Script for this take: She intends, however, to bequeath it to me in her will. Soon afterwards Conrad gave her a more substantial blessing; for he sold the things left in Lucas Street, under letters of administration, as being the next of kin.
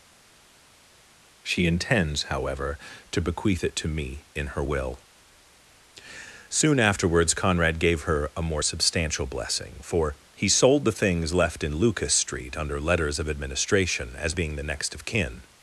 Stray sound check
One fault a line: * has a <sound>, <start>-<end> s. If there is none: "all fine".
all fine